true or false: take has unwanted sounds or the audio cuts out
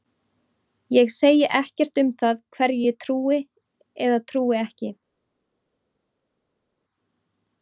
false